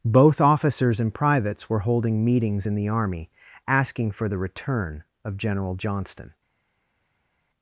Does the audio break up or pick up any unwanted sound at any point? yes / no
no